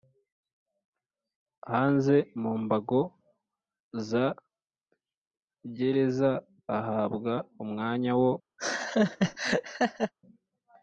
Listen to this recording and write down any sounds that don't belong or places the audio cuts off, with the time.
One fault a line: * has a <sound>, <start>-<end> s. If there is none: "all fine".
* has a laugh, 8.6-10.1 s